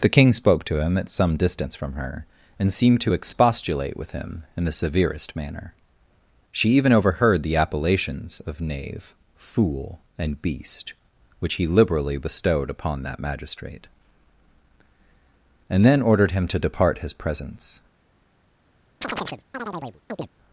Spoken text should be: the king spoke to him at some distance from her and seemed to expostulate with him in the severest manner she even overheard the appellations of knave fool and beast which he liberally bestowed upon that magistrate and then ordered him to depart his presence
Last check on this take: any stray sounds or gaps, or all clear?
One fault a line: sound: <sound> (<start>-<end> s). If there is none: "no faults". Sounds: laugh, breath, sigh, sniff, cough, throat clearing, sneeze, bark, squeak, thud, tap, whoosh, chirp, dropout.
sound: chirp (19.0-20.3 s)